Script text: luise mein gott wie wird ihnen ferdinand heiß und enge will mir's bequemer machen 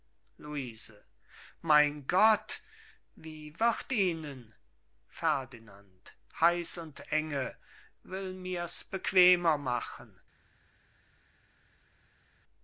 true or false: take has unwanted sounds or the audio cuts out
false